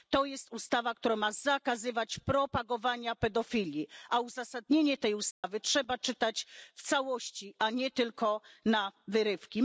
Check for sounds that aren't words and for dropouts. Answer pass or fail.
fail